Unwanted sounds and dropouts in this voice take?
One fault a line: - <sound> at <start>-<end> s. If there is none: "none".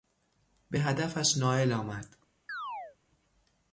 - chirp at 2.5-3.0 s